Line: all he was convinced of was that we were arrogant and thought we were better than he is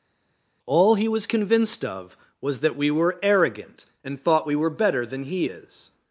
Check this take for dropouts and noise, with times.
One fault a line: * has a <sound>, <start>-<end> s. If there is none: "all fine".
all fine